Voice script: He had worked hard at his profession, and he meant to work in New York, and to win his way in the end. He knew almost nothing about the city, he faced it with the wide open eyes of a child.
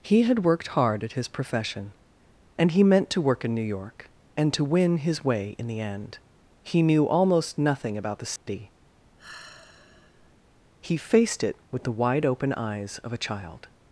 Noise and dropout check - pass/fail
fail